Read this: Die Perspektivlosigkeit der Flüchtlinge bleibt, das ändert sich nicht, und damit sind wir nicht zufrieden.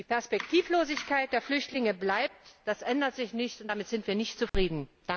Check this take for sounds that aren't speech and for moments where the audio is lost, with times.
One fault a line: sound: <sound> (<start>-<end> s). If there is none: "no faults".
sound: dropout (4.5-4.5 s)